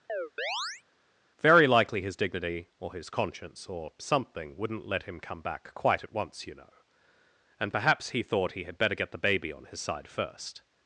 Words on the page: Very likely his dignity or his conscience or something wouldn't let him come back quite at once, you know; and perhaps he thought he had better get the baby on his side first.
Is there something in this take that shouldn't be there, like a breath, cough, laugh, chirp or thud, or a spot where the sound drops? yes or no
yes